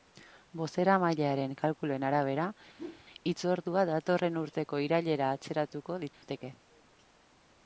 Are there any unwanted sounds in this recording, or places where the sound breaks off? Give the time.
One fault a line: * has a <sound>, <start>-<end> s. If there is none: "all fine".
* has a whoosh, 2.8-3.0 s
* has a dropout, 6.1-6.2 s